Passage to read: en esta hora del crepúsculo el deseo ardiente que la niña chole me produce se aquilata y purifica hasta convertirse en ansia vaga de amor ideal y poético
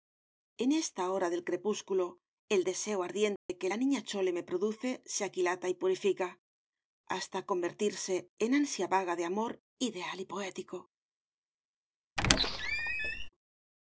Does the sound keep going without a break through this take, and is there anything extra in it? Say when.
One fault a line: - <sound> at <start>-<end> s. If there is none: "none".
- dropout at 3.4-3.5 s
- squeak at 12.2-13.3 s